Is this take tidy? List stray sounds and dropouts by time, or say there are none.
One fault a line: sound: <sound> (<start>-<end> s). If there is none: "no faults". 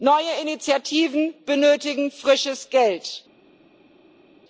no faults